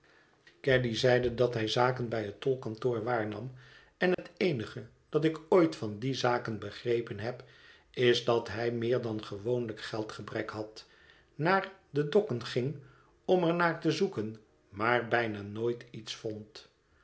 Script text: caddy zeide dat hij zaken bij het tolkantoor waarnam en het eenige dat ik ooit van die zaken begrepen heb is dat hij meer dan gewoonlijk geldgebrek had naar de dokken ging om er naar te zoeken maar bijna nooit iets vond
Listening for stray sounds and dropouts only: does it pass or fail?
fail